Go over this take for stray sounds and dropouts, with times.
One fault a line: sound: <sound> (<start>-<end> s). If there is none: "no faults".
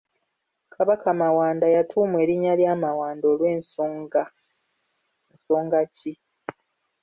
no faults